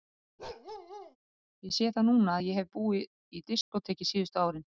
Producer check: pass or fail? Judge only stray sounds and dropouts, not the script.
fail